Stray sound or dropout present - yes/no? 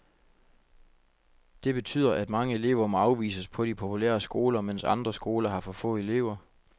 no